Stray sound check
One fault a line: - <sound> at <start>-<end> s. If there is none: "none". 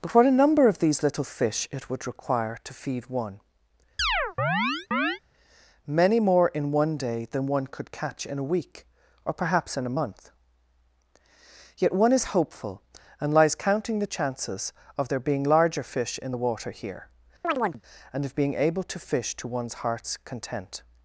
- chirp at 4.0-5.2 s
- chirp at 17.4-17.8 s